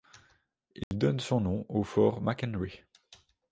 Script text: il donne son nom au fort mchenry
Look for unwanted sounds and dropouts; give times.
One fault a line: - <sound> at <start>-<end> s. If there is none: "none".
- dropout at 0.8-0.9 s